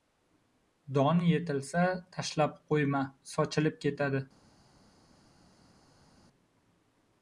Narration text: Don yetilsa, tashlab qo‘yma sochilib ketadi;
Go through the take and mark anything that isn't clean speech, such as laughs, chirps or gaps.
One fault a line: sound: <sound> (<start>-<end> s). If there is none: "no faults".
no faults